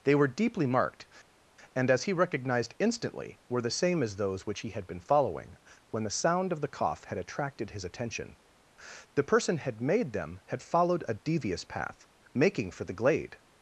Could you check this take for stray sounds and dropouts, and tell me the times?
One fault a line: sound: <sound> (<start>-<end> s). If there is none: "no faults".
no faults